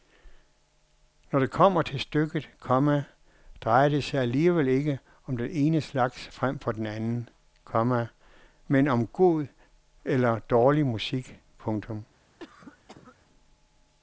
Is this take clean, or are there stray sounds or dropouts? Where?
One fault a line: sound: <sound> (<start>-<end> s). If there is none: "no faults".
sound: cough (12.4-13.2 s)